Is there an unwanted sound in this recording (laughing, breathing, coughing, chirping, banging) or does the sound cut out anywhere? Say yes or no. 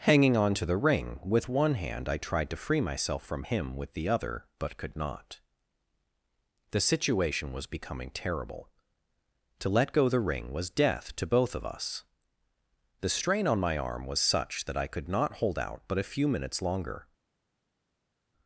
no